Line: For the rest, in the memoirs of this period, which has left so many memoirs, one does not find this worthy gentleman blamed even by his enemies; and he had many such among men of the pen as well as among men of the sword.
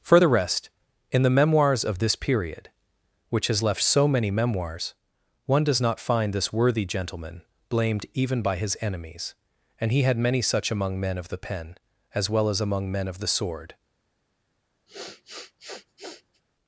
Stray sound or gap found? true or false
true